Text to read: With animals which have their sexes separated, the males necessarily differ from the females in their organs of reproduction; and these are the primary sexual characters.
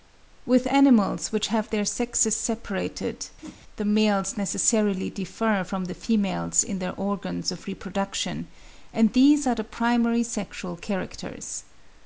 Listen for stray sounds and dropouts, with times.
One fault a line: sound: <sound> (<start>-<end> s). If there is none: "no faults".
sound: whoosh (3.4-3.6 s)